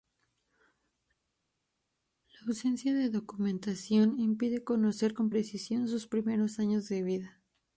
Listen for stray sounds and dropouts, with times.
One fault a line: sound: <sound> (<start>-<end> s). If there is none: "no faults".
no faults